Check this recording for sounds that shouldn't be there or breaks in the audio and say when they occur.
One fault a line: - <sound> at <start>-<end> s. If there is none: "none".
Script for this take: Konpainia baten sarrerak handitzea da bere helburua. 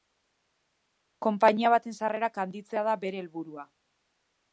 none